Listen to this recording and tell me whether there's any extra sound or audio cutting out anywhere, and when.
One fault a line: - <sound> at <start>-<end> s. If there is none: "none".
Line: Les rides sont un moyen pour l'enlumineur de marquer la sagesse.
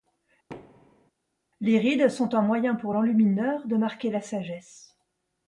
- thud at 0.5-1.1 s